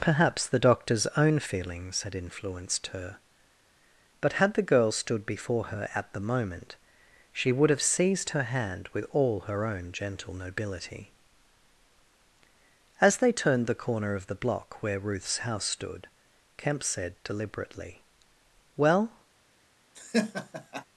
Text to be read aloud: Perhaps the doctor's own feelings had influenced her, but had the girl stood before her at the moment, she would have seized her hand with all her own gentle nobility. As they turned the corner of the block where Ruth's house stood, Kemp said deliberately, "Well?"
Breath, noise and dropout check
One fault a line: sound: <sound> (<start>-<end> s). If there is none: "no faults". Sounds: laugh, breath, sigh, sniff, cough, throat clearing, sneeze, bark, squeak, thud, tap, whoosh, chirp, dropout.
sound: laugh (19.9-20.8 s)